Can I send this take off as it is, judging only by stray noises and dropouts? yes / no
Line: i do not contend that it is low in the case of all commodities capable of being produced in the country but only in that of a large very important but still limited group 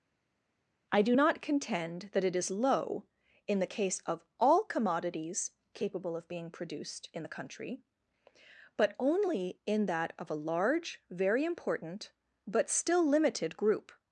yes